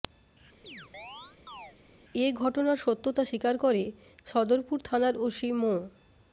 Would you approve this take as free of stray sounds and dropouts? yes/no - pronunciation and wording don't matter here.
no